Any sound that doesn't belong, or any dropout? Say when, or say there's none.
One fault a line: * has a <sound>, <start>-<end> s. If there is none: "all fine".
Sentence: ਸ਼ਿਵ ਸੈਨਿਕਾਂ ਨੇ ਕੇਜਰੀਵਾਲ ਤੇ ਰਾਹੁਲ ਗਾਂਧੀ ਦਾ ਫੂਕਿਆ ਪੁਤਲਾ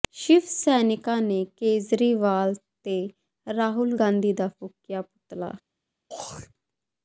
* has a throat clearing, 6.1-6.5 s